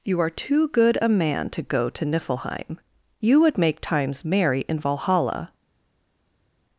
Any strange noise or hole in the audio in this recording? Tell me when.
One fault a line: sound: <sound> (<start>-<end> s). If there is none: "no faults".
no faults